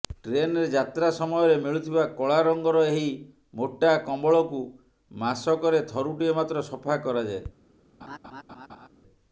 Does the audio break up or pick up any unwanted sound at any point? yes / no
yes